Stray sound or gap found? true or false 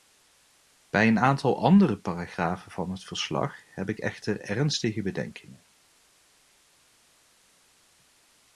false